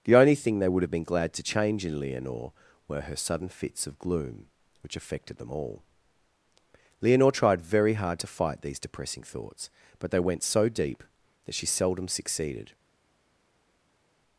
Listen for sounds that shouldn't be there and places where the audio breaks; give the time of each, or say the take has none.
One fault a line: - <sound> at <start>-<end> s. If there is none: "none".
none